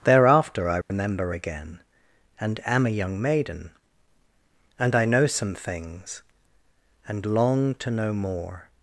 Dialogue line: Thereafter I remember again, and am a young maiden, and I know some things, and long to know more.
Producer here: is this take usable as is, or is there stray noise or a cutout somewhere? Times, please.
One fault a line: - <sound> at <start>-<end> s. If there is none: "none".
- dropout at 0.8-0.9 s